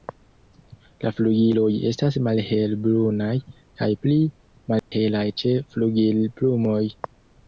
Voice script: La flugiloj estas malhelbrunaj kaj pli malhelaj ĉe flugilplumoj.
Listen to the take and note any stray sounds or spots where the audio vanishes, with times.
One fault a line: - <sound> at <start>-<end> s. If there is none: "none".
- dropout at 4.8-4.9 s